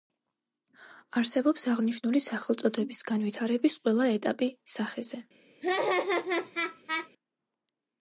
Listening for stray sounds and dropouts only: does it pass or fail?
fail